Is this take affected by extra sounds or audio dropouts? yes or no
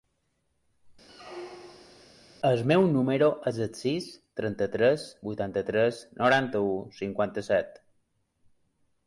yes